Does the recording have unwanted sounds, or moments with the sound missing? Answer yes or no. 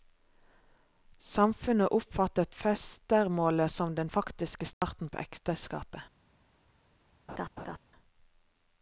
yes